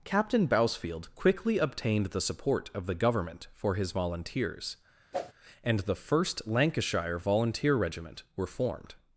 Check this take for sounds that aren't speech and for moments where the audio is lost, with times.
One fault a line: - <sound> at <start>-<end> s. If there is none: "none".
- whoosh at 5.1-5.3 s